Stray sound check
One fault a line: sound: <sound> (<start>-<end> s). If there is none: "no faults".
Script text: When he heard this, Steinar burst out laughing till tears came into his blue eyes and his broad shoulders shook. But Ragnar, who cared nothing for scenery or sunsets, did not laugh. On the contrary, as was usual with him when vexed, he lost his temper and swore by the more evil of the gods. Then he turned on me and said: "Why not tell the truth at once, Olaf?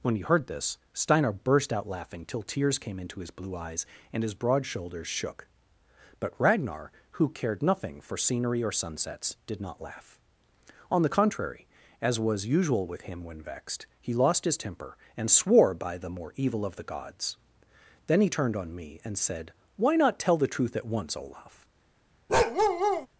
sound: bark (22.3-23.1 s)